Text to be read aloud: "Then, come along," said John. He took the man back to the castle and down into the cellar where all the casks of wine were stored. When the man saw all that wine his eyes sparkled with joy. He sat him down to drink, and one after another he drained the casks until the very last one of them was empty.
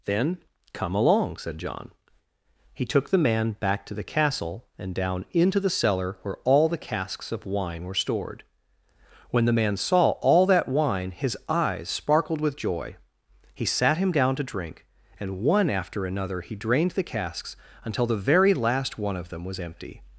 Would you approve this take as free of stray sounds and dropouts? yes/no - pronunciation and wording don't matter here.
yes